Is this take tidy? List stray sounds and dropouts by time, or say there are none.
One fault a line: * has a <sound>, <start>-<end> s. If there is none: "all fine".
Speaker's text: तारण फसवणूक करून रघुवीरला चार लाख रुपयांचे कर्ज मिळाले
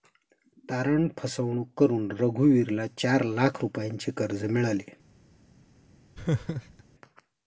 * has a laugh, 6.1-6.8 s